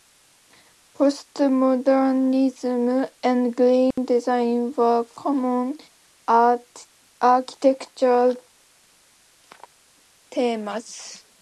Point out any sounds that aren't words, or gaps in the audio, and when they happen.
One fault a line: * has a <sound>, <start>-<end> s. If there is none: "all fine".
* has a dropout, 3.9-4.0 s